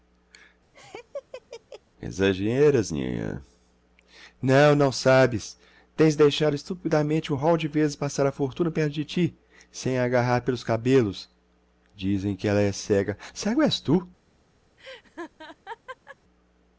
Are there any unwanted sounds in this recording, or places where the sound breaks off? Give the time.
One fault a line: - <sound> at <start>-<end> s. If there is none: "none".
- laugh at 0.7-1.8 s
- laugh at 14.8-16.2 s